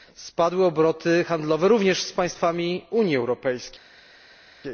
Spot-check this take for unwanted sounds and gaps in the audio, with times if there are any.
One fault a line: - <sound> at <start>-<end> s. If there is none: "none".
none